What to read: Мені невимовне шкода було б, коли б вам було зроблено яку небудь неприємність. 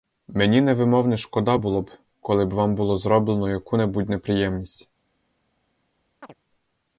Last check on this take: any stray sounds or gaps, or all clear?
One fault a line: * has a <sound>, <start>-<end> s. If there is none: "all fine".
* has a chirp, 6.2-6.3 s